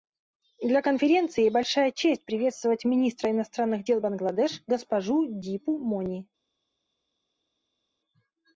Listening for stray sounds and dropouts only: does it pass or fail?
pass